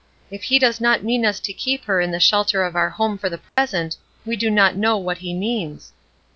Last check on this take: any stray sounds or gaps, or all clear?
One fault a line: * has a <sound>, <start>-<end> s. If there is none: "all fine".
* has a dropout, 3.5-3.6 s